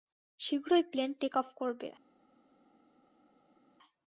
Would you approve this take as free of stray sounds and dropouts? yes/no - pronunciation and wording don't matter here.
yes